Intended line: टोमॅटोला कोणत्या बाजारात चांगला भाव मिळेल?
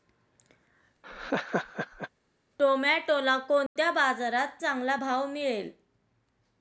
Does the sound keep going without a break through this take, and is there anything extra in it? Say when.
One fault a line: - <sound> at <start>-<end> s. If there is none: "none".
- laugh at 1.0-2.1 s
- dropout at 3.7-3.8 s